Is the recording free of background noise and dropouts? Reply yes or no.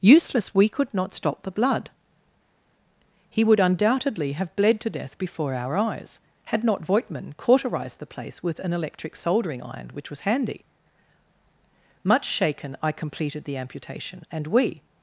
yes